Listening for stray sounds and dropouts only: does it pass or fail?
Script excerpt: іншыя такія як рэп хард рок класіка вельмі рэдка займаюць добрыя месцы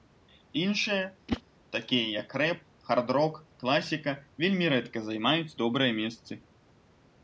fail